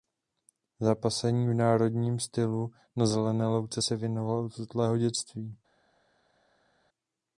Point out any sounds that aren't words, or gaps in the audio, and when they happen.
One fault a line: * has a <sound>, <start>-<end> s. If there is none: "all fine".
all fine